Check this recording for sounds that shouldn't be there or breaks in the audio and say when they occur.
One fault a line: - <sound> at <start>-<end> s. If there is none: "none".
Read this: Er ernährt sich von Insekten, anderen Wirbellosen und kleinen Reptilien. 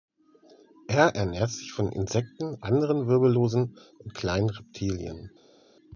none